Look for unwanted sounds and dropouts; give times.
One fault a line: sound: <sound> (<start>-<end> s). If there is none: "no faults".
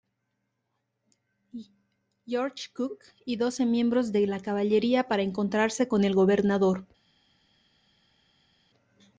no faults